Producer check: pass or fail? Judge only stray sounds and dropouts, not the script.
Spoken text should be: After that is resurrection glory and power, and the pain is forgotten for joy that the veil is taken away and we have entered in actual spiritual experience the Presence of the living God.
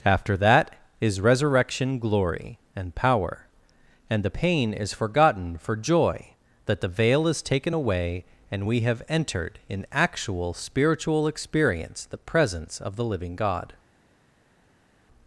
pass